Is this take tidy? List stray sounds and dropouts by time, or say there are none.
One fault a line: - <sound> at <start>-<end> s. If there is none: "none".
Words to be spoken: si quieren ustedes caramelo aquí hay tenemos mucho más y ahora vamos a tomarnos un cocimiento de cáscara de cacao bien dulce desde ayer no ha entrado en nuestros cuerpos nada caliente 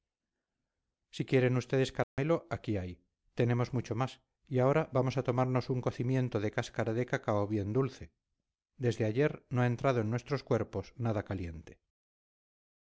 - dropout at 2.0-2.2 s